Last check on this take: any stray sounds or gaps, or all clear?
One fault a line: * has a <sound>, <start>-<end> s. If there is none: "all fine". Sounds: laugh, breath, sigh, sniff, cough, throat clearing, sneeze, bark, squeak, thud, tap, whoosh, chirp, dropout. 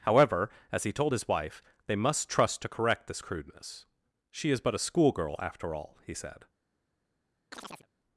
* has a chirp, 7.5-7.9 s